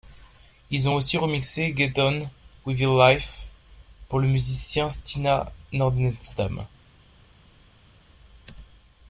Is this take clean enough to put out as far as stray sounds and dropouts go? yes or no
yes